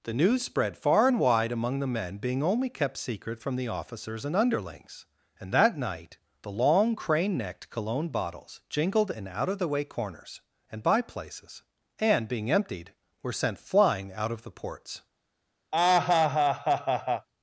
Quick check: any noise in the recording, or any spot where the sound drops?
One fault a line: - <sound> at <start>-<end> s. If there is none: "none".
- laugh at 15.7-17.3 s